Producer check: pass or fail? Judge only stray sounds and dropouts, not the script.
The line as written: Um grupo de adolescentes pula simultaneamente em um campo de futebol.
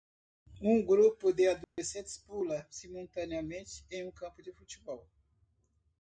fail